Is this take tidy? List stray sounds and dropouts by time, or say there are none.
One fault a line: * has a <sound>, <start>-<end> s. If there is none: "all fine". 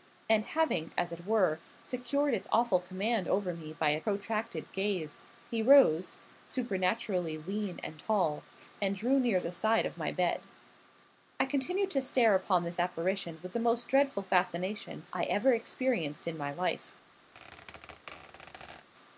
* has a squeak, 17.3-18.9 s